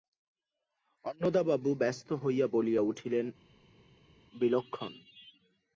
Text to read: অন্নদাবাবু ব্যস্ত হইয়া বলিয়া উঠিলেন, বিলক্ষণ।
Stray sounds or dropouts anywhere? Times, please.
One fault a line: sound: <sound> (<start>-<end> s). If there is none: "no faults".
no faults